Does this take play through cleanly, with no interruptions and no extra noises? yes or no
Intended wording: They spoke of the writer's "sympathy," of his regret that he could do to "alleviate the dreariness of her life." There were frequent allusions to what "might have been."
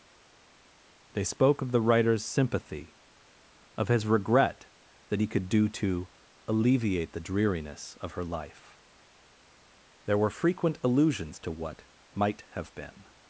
yes